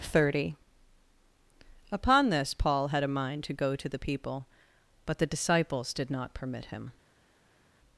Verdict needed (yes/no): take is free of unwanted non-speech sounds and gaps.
yes